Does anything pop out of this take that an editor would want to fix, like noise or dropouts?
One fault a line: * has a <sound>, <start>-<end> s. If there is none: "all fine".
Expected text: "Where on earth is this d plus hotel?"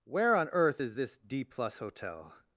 all fine